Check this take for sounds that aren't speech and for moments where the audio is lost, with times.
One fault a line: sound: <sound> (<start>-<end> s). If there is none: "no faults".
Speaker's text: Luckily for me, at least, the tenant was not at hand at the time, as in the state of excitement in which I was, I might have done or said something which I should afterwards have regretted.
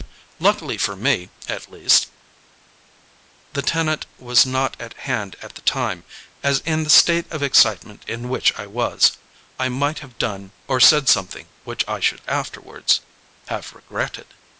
no faults